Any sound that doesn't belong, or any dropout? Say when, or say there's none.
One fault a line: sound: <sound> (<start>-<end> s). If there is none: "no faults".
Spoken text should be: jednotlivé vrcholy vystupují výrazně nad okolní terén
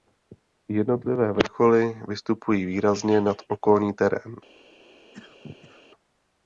sound: cough (5.1-5.9 s)